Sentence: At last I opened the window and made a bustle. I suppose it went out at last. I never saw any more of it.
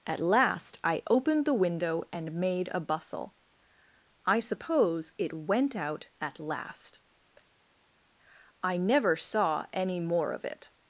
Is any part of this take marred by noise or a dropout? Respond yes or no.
no